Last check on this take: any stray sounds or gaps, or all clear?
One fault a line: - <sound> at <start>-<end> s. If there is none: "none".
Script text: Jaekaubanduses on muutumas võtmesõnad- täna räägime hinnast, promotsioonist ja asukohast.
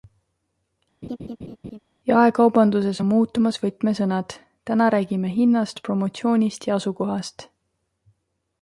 - laugh at 1.0-1.8 s